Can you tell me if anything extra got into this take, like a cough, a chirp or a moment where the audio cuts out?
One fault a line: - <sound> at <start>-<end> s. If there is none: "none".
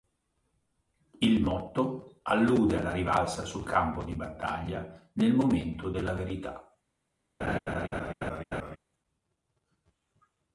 - laugh at 7.4-8.8 s